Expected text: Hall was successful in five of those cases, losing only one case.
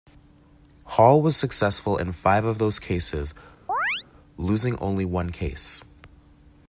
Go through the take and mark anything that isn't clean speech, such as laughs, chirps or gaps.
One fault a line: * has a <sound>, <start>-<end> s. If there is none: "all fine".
* has a chirp, 3.7-4.1 s